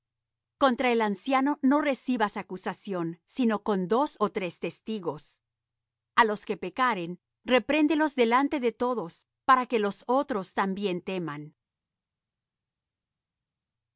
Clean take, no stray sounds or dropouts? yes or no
yes